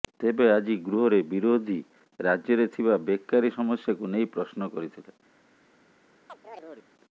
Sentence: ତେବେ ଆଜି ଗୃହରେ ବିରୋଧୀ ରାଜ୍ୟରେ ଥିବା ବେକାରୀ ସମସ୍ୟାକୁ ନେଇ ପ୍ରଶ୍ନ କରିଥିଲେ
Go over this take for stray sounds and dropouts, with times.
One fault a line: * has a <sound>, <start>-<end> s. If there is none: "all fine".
* has a chirp, 6.3-6.9 s